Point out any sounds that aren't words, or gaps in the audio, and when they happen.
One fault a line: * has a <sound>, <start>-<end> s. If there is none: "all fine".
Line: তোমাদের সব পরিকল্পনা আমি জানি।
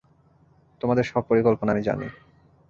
all fine